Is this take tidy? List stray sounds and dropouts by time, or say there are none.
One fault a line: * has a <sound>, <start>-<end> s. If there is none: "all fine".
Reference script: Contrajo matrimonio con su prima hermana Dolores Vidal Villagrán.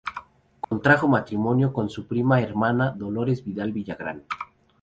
* has a dropout, 0.6-0.7 s